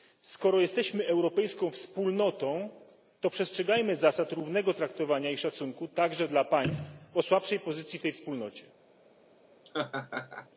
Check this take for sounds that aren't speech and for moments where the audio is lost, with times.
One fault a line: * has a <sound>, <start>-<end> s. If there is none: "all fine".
* has a laugh, 9.6-10.5 s